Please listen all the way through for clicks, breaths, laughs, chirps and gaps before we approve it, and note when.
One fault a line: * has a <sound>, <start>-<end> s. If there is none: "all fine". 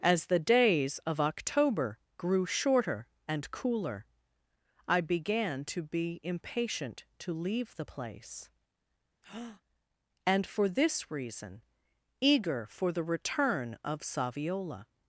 * has a breath, 9.2-9.6 s